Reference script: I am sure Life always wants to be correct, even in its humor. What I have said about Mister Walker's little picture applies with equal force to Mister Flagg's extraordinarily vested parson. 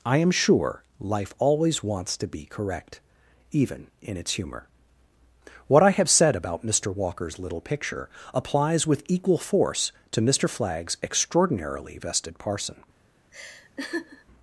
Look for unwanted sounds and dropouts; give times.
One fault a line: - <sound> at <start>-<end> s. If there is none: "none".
- laugh at 13.3-14.2 s